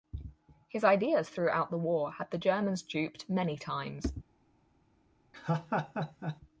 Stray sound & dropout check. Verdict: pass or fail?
fail